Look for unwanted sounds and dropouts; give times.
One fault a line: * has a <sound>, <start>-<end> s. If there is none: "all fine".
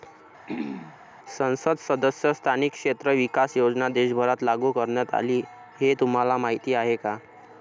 * has a throat clearing, 0.5-1.0 s